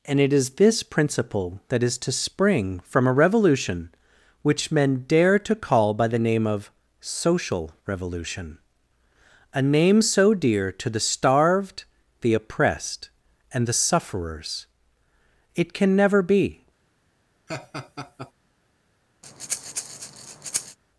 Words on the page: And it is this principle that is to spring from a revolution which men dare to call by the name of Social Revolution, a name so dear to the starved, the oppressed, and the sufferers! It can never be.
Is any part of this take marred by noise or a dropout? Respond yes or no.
yes